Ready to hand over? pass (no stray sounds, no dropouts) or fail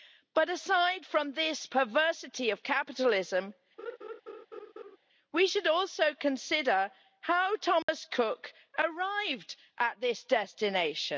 fail